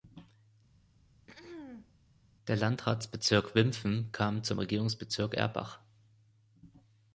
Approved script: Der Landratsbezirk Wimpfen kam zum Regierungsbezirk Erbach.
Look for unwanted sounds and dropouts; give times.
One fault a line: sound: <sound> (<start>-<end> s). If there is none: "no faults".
sound: throat clearing (0.8-2.0 s)